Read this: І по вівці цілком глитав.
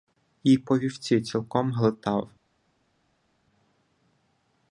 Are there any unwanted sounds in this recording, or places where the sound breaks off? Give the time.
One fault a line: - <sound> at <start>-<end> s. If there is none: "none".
none